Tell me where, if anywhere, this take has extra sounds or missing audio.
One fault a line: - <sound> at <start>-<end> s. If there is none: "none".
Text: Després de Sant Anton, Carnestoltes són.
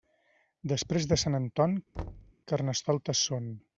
- thud at 1.9-2.3 s